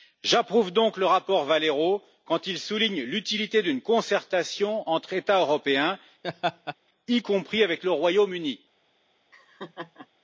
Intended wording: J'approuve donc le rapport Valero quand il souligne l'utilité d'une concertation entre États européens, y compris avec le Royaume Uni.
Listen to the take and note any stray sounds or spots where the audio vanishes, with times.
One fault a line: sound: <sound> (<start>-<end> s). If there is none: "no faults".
sound: laugh (6.2-6.8 s)
sound: laugh (9.3-10.1 s)